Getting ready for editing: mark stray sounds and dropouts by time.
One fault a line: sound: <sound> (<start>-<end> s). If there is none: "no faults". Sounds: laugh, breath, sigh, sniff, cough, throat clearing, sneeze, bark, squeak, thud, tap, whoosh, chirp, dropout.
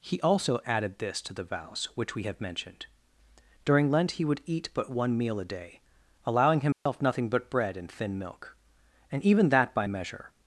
sound: dropout (6.7-6.9 s)